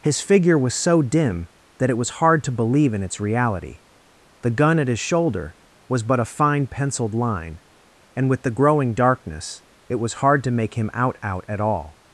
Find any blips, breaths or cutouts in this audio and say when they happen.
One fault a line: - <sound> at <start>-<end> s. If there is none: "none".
none